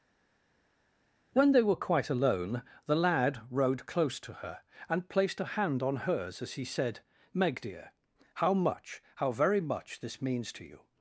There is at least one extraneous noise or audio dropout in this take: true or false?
false